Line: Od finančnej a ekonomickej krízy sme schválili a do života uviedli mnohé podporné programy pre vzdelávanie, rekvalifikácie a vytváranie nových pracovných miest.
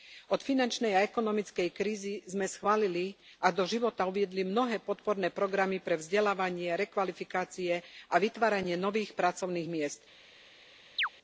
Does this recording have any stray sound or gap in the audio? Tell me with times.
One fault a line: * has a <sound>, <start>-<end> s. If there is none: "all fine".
* has a chirp, 11.0-11.1 s